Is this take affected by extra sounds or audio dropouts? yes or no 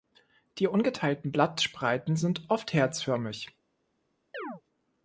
yes